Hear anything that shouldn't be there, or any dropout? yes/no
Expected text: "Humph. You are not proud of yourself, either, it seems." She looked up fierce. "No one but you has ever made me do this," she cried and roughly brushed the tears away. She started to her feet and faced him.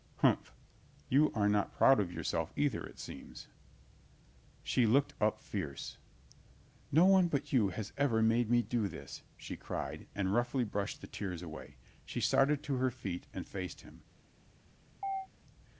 yes